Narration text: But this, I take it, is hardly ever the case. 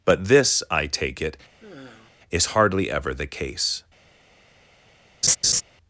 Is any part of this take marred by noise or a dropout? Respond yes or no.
yes